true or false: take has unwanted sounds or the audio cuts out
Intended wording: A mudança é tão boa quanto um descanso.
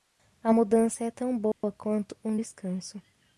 true